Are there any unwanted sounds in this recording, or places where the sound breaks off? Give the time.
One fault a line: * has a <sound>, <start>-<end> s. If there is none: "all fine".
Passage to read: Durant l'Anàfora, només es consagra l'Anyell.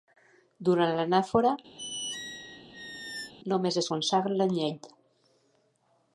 * has a squeak, 1.8-3.3 s